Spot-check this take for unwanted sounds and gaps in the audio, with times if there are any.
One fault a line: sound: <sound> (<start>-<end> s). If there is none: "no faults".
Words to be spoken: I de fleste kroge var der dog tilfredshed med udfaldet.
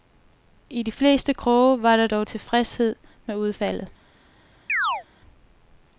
sound: chirp (4.7-5.0 s)